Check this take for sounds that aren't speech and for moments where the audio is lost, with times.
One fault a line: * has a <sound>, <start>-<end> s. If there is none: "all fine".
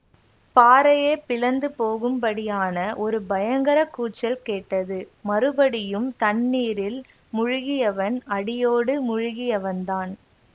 all fine